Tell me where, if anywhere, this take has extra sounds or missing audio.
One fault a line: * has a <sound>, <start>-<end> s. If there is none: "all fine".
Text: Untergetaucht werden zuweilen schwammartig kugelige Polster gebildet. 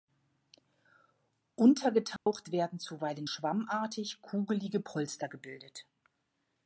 * has a dropout, 2.2-2.3 s